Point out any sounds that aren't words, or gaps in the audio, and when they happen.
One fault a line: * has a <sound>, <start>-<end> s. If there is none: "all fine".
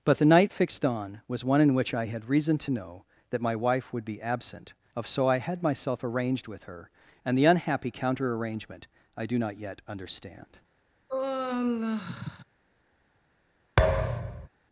* has a sigh, 11.1-12.4 s
* has a thud, 13.8-14.5 s